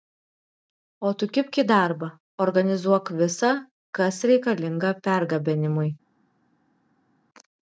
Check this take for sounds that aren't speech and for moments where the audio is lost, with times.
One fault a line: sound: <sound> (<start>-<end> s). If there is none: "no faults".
no faults